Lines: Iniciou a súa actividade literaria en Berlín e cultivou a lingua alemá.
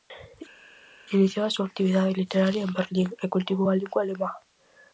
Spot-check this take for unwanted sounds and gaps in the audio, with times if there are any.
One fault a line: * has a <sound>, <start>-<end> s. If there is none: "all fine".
all fine